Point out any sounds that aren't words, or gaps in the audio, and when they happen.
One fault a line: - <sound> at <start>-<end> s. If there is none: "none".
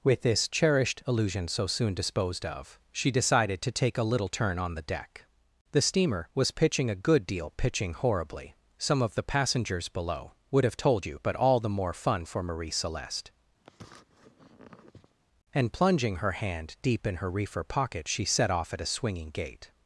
- sniff at 13.6-15.1 s